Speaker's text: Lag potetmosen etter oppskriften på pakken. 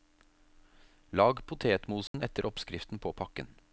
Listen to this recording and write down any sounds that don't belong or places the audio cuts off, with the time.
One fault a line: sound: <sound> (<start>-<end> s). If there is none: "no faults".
sound: dropout (2.1-2.1 s)